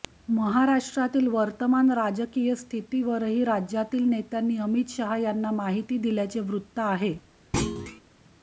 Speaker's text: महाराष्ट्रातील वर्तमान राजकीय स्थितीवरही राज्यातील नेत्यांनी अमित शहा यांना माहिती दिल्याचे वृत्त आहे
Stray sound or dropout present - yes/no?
yes